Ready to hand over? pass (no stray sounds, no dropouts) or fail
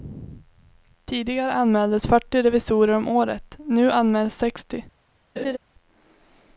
fail